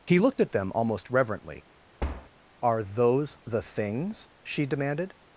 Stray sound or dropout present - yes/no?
yes